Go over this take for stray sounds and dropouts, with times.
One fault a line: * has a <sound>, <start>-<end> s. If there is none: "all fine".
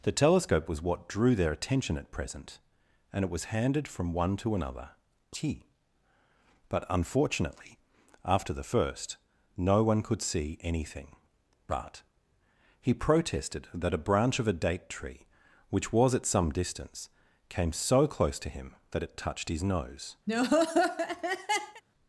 * has a laugh, 20.3-21.8 s